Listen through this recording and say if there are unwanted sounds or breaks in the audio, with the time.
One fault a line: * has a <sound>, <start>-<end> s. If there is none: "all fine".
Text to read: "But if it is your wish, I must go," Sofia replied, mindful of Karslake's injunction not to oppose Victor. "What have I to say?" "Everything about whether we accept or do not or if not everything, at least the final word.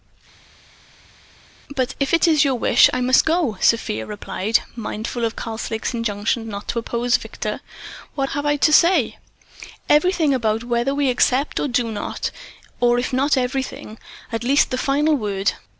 all fine